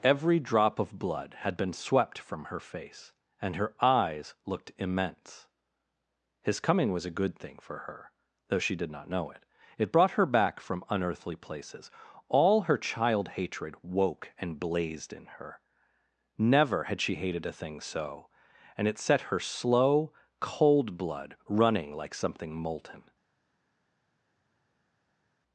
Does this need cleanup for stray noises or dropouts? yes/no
no